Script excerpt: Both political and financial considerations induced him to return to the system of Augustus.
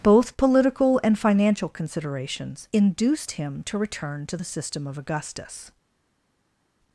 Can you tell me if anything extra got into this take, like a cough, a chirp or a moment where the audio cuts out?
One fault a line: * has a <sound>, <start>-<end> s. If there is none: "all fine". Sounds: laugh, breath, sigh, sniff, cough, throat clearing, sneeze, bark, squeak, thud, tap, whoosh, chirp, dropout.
all fine